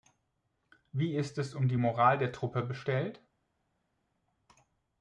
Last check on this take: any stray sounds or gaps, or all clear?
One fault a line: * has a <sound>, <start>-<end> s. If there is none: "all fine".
all fine